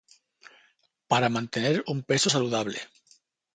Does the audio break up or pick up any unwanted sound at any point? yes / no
no